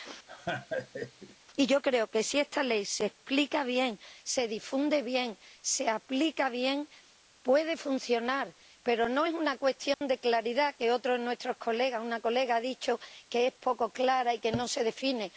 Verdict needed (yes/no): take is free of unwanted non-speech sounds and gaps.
no